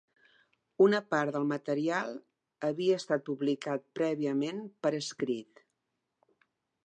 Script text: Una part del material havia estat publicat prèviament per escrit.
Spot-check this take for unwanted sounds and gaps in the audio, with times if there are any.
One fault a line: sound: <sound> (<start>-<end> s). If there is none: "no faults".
no faults